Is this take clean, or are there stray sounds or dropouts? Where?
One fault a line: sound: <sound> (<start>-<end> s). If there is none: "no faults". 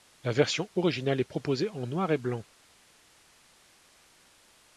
no faults